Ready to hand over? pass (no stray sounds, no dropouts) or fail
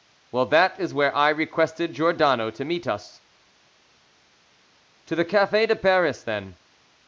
pass